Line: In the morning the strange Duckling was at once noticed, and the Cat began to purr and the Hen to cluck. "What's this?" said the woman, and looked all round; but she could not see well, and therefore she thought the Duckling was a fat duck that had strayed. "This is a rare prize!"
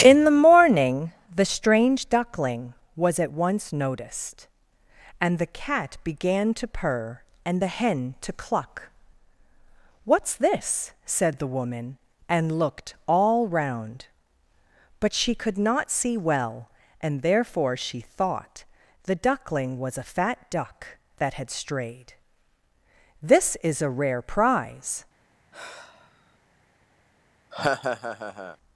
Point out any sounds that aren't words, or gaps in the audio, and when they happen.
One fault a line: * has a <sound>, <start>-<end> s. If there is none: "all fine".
* has a sigh, 25.5-26.4 s
* has a laugh, 27.5-28.6 s